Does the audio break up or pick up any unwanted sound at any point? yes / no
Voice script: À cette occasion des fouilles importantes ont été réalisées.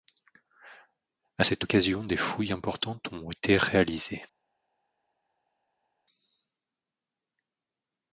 no